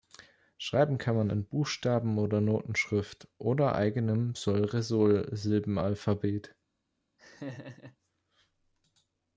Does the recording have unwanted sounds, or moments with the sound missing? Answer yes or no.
yes